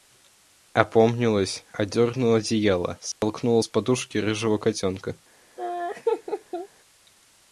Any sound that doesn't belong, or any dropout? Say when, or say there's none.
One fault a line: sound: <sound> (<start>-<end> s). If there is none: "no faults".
sound: dropout (3.1-3.2 s)
sound: laugh (5.6-6.7 s)